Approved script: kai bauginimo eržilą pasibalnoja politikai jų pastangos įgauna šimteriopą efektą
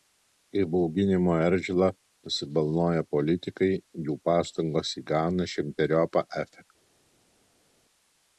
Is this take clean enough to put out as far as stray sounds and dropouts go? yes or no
yes